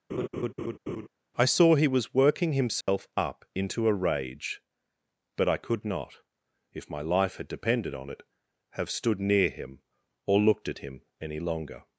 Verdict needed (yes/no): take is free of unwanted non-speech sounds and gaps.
no